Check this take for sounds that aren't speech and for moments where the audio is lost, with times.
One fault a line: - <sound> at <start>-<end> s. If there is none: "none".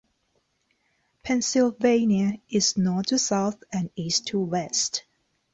none